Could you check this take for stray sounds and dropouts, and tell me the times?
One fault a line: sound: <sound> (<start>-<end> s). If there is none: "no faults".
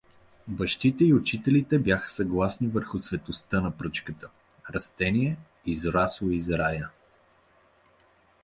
no faults